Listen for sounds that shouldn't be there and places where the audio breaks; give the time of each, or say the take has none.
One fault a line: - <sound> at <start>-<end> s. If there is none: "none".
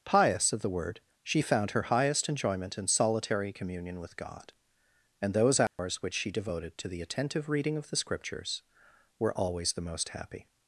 - dropout at 5.7-5.8 s